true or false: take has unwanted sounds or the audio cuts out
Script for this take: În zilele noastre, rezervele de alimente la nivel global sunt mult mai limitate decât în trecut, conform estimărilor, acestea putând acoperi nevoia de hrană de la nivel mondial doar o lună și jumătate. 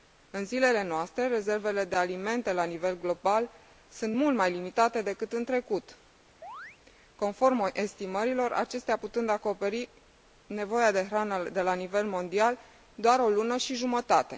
true